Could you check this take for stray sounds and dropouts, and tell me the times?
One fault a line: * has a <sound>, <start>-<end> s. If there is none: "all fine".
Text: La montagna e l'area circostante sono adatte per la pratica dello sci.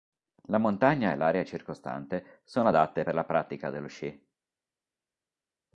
all fine